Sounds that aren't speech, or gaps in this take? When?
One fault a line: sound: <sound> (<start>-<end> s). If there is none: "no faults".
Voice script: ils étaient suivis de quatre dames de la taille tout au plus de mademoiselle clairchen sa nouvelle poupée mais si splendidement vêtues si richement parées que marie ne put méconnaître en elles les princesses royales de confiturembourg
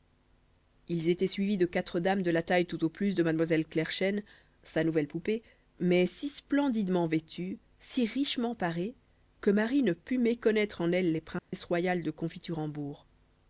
sound: dropout (11.4-11.5 s)